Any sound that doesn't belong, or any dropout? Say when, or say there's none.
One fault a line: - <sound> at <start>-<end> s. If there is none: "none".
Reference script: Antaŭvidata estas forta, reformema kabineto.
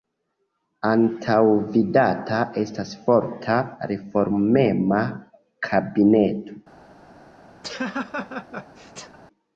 - laugh at 7.6-9.2 s